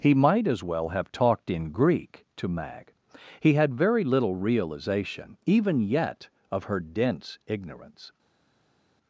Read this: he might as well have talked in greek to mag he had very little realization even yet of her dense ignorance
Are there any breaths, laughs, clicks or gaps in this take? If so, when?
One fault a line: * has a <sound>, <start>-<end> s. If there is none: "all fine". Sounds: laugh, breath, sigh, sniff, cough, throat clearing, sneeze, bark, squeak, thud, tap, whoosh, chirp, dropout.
all fine